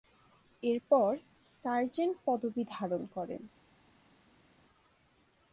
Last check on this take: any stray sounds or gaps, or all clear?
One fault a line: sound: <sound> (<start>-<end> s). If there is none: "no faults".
no faults